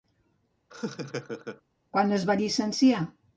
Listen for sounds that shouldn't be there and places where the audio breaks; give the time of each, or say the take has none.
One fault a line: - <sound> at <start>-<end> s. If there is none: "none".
- laugh at 0.7-1.6 s